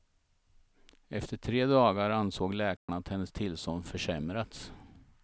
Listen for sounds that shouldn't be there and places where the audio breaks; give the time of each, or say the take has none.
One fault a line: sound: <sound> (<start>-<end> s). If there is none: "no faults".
sound: dropout (2.8-2.9 s)